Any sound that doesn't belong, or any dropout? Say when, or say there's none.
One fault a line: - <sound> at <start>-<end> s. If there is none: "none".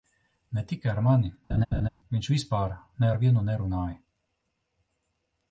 - laugh at 1.5-1.9 s